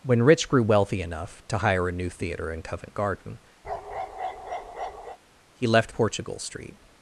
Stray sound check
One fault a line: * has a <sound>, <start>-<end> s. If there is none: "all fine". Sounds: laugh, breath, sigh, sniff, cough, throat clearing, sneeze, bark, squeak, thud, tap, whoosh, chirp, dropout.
* has a bark, 3.6-5.2 s